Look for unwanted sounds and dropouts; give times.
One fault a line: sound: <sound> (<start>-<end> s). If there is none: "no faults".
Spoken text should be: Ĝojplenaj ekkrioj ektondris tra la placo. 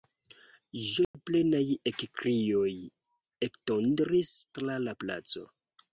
sound: dropout (1.0-1.1 s)